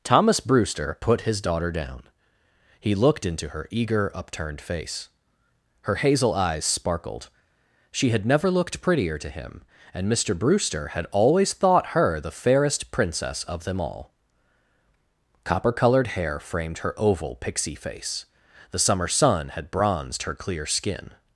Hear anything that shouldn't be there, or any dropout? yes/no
no